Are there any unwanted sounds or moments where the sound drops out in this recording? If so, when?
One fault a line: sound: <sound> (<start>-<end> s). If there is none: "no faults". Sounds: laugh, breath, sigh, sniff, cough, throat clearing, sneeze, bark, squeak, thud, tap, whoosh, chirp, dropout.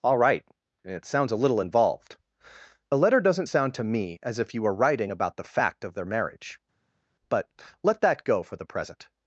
no faults